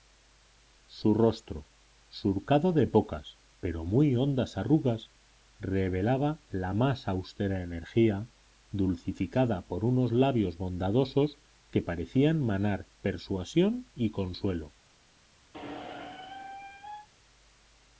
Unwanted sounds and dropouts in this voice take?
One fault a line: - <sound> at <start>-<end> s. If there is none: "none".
- squeak at 15.5-17.1 s